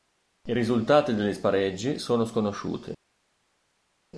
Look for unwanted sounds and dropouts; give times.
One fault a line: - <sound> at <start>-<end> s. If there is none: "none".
none